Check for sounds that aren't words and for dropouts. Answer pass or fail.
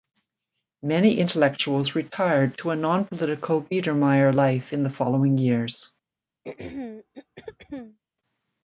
fail